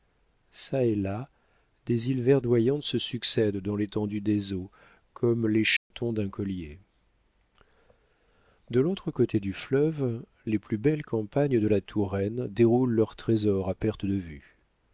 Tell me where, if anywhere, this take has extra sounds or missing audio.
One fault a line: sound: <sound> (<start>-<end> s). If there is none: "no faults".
sound: dropout (5.8-5.9 s)